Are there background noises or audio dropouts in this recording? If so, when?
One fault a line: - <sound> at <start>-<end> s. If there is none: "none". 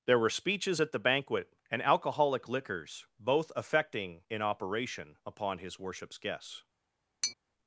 - tap at 7.2-7.4 s